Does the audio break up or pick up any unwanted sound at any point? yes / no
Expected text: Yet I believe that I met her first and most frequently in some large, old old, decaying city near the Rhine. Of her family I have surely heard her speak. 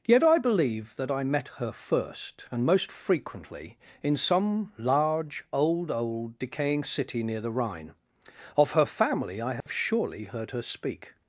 yes